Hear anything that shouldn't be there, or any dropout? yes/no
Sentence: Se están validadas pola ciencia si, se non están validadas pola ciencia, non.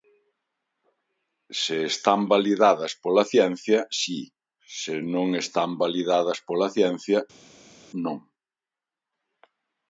no